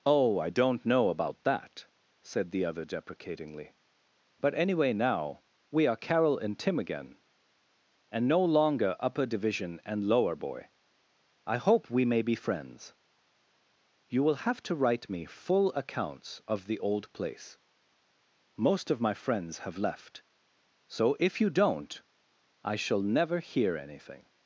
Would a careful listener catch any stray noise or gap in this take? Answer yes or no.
no